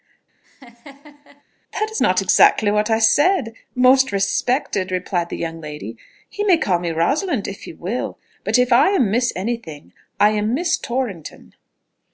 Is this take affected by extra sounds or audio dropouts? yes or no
yes